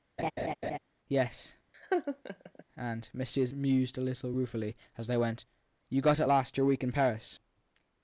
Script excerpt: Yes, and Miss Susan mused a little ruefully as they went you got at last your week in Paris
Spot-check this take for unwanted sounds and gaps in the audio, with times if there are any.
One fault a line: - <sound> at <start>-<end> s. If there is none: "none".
- laugh at 0.2-0.8 s
- laugh at 1.7-2.6 s